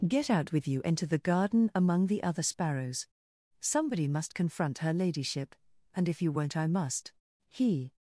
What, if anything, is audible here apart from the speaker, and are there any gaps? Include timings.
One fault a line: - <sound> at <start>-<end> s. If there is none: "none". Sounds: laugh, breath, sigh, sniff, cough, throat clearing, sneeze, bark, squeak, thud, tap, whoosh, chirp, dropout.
none